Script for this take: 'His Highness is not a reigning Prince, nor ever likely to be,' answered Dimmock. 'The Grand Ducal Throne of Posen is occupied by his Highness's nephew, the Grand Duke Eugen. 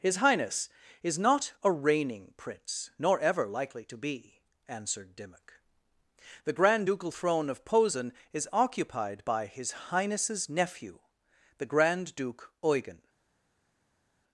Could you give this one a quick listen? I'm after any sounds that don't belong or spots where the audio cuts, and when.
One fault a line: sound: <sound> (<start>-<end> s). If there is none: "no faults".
no faults